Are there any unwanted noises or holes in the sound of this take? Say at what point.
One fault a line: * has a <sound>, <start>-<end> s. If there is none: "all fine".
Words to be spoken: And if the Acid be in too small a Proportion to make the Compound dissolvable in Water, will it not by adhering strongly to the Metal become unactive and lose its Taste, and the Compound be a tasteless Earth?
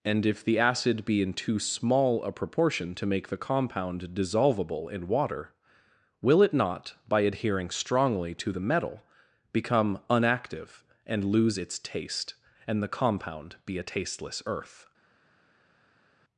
all fine